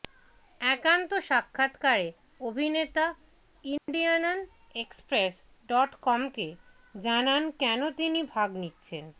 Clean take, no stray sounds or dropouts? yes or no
no